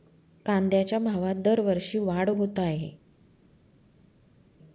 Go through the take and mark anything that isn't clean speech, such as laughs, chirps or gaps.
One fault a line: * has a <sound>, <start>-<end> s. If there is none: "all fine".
all fine